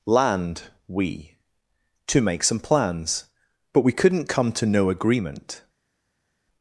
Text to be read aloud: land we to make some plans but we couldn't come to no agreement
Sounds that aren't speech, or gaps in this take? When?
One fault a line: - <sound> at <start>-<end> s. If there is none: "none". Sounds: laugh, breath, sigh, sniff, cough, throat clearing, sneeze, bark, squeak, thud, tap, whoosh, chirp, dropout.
none